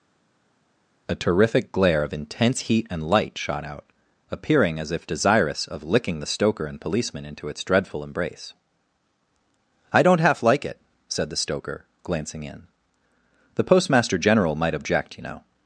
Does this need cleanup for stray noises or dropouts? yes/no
no